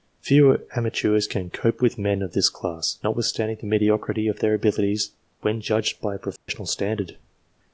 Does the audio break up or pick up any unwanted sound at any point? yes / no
yes